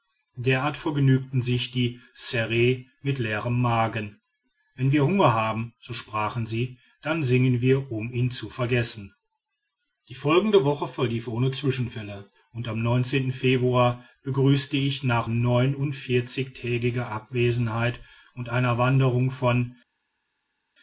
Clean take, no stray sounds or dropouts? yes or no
yes